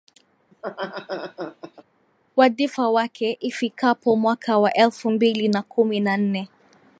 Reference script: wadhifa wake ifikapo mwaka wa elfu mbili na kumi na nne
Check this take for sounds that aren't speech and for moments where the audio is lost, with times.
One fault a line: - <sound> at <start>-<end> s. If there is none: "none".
- laugh at 0.5-1.8 s